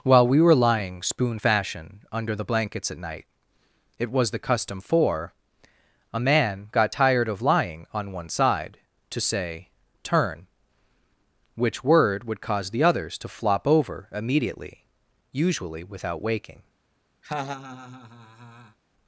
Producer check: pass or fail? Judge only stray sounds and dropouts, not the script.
fail